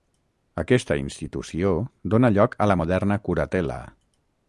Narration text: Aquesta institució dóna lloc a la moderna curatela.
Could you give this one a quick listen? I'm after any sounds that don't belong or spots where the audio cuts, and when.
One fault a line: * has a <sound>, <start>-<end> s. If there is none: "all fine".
all fine